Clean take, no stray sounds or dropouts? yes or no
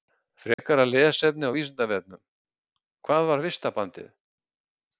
no